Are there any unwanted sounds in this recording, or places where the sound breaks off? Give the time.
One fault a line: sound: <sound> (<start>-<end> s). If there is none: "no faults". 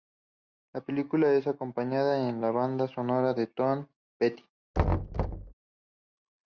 sound: thud (4.7-5.5 s)